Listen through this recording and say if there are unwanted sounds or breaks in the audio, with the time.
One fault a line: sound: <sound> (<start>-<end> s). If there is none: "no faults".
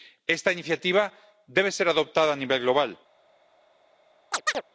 sound: chirp (4.3-4.6 s)